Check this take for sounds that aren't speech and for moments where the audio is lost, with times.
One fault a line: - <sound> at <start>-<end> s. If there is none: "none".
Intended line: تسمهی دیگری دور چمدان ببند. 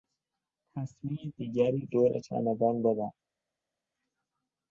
none